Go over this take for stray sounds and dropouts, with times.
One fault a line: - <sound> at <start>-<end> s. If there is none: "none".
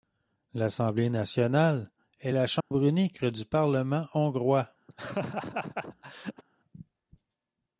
- dropout at 2.6-2.7 s
- laugh at 4.9-6.4 s